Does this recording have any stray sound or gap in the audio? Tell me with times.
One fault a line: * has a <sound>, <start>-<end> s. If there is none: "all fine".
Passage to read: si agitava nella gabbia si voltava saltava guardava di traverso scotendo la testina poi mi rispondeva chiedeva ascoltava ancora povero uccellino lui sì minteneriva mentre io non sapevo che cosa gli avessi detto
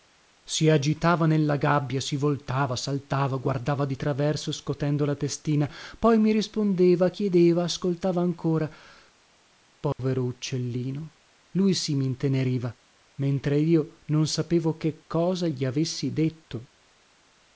* has a dropout, 9.9-10.0 s